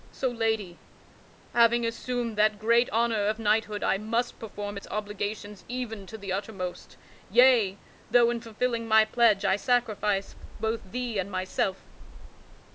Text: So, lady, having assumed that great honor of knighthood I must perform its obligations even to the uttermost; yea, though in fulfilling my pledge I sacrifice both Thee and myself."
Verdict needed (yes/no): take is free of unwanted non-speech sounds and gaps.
yes